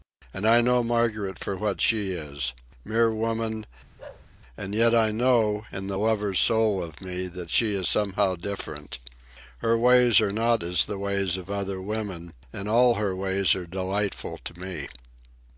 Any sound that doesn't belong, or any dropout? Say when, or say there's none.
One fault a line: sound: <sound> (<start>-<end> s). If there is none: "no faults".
sound: bark (4.0-4.3 s)